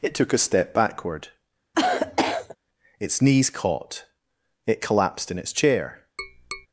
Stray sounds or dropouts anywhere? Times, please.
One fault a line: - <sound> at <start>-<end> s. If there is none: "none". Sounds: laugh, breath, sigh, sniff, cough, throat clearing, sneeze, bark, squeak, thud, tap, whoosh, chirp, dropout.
- cough at 1.7-2.6 s
- tap at 6.2-6.7 s